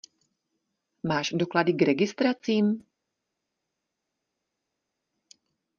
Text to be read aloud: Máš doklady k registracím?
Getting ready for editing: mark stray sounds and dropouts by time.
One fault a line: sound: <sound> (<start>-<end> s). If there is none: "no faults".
no faults